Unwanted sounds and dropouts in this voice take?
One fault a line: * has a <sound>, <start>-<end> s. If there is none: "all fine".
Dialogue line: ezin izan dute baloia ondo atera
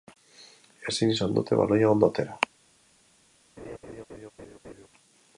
* has a laugh, 3.6-4.9 s